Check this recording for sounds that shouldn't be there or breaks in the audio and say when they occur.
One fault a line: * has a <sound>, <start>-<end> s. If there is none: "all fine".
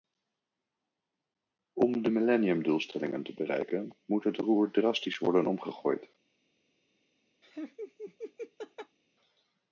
* has a laugh, 7.4-9.0 s